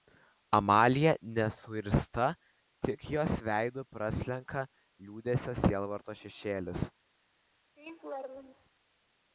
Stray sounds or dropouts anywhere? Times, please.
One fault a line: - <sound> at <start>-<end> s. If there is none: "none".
- laugh at 7.8-8.7 s